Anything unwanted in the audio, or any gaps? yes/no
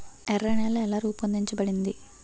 no